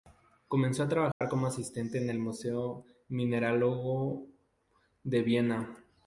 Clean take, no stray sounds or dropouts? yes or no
no